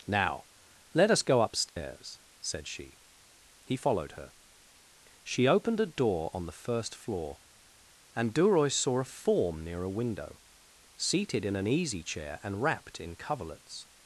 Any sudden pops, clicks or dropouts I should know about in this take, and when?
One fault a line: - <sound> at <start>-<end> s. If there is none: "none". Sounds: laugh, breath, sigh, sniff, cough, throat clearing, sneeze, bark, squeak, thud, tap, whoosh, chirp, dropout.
- dropout at 1.7-1.8 s